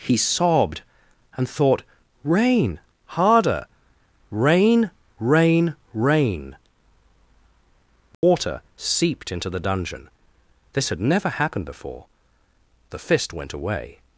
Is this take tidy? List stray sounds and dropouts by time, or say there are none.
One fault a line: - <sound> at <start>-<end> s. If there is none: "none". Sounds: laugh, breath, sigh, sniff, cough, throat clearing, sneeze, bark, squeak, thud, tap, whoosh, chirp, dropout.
- dropout at 8.1-8.2 s